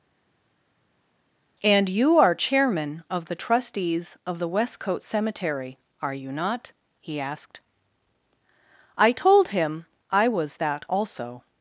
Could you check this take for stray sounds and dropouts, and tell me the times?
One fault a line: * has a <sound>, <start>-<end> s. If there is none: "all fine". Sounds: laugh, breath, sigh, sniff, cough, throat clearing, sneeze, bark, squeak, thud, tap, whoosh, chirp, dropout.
all fine